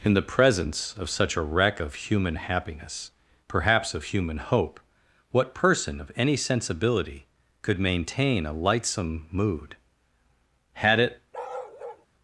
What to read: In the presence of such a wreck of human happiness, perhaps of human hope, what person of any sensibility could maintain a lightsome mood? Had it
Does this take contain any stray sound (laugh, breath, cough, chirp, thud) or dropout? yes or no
yes